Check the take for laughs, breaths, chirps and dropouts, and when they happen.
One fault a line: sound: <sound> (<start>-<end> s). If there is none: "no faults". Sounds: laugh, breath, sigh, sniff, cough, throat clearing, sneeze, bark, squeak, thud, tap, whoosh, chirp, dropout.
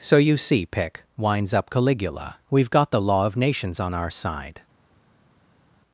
no faults